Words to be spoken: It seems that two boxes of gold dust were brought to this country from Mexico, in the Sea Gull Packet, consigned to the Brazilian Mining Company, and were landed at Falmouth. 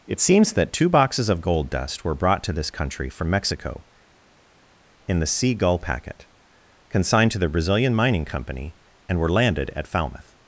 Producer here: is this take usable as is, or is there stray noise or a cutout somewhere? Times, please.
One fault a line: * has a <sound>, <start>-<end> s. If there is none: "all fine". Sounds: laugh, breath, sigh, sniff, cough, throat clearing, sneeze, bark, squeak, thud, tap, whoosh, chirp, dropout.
all fine